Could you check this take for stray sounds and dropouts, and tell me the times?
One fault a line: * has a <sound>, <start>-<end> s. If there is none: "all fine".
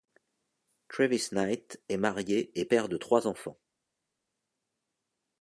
all fine